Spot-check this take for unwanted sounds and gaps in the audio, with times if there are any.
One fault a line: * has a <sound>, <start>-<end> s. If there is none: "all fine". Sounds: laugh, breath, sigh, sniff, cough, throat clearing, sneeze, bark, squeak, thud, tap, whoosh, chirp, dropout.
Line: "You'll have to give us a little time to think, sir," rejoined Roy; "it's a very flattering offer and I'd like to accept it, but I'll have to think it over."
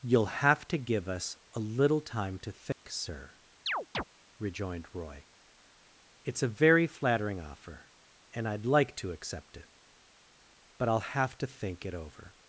* has a dropout, 2.7-2.8 s
* has a chirp, 3.7-4.0 s